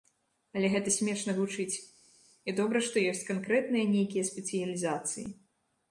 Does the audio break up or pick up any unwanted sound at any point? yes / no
no